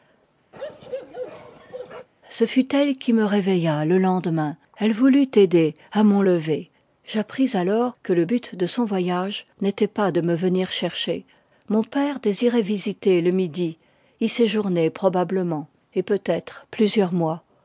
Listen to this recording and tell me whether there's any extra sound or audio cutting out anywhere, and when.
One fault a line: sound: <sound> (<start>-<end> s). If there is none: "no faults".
sound: bark (0.5-2.1 s)